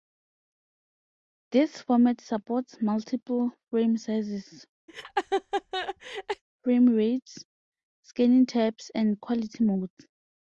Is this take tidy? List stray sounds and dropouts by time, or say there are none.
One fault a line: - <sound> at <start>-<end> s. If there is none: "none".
- laugh at 4.9-6.4 s